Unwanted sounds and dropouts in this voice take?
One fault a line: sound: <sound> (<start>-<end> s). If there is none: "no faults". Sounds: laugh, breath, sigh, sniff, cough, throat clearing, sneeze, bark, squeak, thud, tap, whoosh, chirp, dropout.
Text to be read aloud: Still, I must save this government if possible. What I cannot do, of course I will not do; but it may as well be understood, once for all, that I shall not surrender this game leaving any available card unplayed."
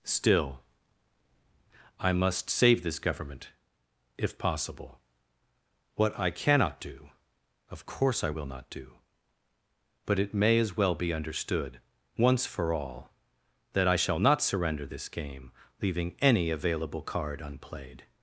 no faults